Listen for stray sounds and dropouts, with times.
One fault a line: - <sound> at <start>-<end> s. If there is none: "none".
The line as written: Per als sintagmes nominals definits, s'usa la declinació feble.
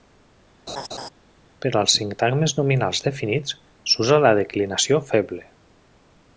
- laugh at 0.7-1.1 s